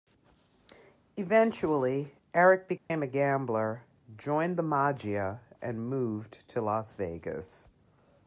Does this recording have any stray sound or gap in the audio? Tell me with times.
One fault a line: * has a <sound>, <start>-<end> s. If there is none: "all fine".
* has a dropout, 2.8-2.9 s